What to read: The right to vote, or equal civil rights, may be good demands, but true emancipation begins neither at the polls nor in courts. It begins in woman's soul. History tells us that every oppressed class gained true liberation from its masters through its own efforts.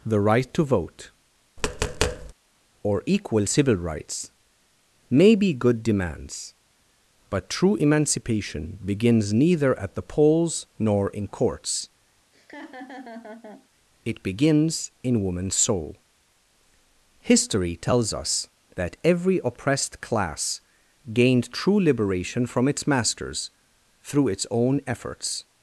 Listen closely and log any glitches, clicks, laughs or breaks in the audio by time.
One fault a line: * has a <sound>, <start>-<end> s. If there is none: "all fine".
* has a tap, 1.6-2.3 s
* has a laugh, 12.3-13.7 s